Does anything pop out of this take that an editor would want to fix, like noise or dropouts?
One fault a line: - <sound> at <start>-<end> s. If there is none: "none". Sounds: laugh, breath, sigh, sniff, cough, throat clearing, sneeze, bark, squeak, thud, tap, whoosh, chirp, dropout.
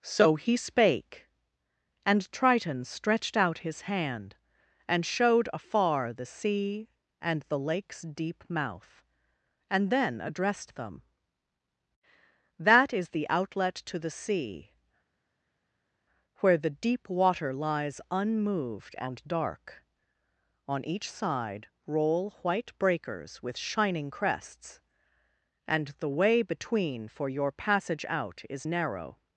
none